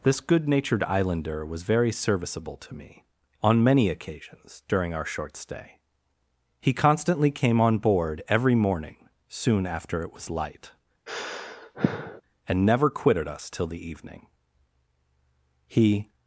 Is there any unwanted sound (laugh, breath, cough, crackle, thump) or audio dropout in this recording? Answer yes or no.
yes